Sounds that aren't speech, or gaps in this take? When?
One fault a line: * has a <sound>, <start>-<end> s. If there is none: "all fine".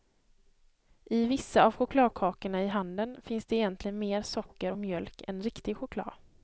all fine